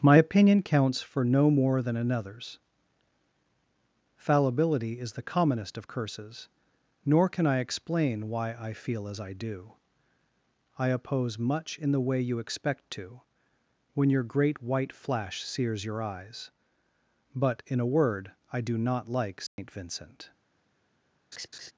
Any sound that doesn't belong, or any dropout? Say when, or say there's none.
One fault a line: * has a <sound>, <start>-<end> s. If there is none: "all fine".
* has a dropout, 19.5-19.6 s
* has a laugh, 21.3-21.7 s